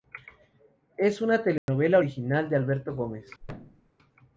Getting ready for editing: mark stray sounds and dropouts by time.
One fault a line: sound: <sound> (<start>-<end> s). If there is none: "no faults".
sound: dropout (1.6-1.7 s)
sound: thud (3.4-3.9 s)